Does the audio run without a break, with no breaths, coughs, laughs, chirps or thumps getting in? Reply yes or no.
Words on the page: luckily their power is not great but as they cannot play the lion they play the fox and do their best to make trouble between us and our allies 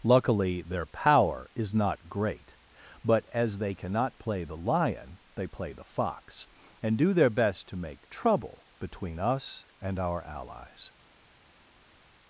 yes